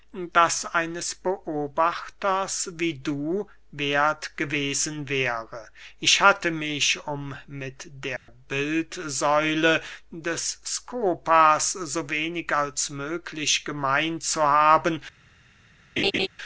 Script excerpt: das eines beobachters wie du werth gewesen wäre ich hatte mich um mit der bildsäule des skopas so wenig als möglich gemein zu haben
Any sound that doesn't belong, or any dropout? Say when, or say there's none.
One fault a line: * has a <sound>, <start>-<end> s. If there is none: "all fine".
* has a dropout, 8.2-8.3 s
* has a laugh, 16.0-16.3 s